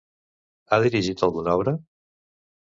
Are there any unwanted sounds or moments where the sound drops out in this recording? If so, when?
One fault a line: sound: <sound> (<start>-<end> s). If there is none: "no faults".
no faults